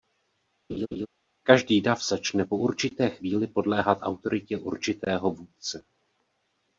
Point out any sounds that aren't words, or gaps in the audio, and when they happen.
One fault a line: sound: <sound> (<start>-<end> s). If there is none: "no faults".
sound: laugh (0.7-1.1 s)